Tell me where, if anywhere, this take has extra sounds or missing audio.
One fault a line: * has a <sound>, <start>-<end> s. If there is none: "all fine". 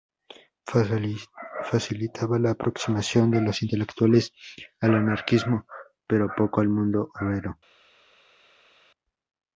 all fine